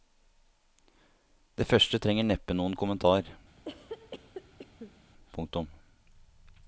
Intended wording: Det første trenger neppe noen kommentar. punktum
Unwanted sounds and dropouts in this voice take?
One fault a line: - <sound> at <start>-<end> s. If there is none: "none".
- cough at 3.6-5.0 s